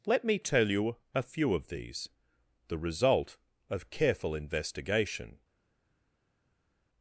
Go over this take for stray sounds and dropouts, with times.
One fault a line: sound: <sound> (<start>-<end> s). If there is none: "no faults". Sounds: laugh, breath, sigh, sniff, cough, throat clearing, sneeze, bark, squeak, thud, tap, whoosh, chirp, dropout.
no faults